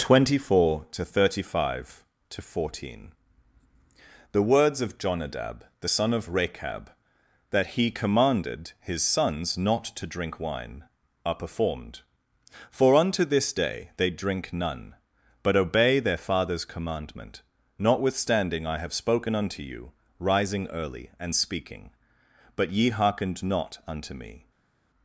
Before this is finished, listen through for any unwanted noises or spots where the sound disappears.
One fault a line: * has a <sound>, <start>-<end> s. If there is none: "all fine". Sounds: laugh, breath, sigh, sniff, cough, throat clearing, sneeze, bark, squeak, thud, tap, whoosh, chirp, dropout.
all fine